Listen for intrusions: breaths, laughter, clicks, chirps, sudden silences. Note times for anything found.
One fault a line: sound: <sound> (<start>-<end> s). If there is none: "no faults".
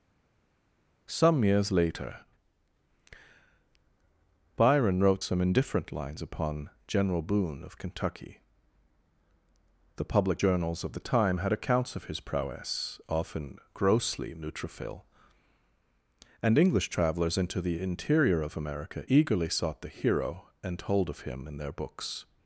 no faults